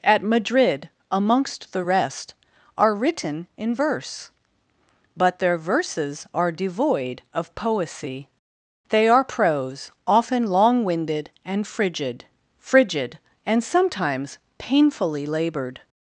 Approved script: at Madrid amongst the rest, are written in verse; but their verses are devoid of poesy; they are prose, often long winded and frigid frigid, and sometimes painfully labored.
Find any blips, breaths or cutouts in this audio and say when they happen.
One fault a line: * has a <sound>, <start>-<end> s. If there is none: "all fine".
all fine